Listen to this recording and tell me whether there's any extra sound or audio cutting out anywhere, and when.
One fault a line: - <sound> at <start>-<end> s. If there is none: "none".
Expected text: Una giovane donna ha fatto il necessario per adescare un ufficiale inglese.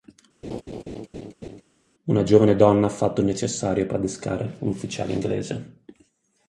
- laugh at 0.4-1.6 s